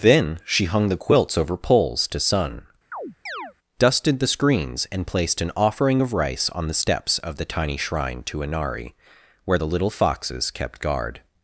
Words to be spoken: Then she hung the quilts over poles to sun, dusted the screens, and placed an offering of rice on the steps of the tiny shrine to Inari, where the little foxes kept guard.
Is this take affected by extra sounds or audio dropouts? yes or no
yes